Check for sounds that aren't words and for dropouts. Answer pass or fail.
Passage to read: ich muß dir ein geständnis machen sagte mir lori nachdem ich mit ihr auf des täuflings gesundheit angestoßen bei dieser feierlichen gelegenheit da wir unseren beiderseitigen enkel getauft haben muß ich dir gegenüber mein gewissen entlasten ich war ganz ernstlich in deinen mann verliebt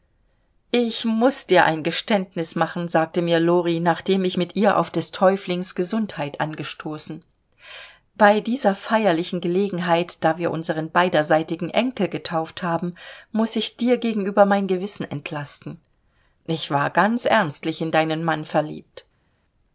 pass